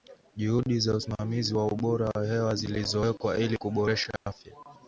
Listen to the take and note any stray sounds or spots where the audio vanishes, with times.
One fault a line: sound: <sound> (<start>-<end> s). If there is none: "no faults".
sound: dropout (4.2-4.3 s)